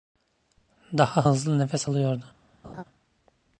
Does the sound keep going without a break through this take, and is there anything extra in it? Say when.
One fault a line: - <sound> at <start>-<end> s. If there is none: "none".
- laugh at 2.6-2.8 s